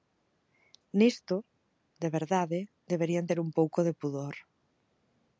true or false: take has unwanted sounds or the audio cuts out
false